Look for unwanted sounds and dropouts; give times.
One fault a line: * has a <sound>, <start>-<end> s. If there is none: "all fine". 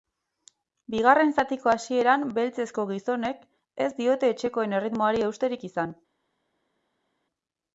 all fine